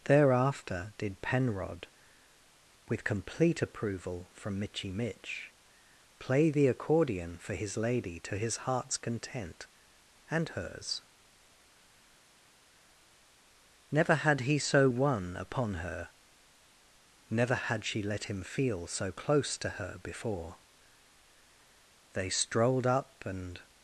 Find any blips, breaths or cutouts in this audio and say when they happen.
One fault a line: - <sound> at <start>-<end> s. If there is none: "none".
none